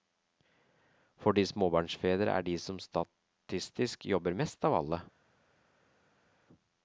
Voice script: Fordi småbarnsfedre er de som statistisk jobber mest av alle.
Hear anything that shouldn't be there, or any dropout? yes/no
no